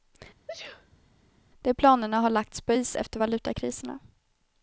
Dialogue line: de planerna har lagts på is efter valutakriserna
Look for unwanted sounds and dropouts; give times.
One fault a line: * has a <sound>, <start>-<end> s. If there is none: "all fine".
* has a sneeze, 0.5-1.0 s